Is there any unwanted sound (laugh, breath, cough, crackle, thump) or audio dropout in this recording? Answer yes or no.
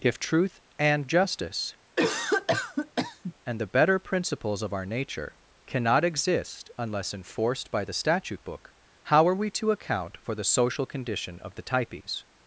yes